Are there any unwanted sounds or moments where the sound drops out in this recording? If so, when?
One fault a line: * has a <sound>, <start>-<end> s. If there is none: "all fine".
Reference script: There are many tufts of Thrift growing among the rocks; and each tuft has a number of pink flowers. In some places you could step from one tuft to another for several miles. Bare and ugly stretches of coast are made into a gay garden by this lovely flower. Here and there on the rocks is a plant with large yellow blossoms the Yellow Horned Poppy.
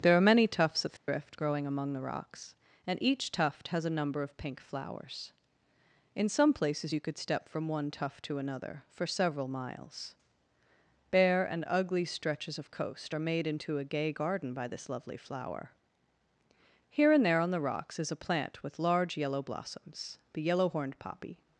* has a dropout, 1.0-1.1 s